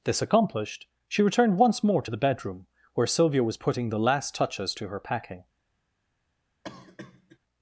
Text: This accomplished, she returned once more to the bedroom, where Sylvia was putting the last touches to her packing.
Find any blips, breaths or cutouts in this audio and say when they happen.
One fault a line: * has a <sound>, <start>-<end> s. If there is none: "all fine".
* has a cough, 6.6-7.4 s